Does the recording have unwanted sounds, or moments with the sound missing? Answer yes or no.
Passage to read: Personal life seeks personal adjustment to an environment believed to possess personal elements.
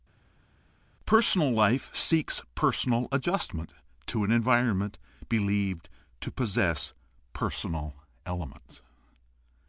no